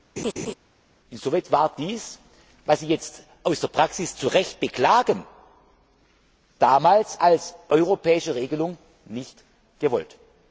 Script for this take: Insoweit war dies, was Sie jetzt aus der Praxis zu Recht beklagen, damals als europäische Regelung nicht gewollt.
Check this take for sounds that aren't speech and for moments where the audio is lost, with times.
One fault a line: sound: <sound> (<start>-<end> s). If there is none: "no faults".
sound: laugh (0.2-0.5 s)